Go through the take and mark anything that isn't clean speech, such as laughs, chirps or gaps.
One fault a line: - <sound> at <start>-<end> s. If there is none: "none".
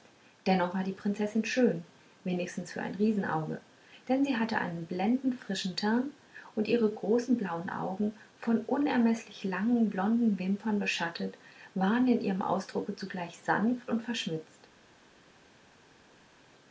none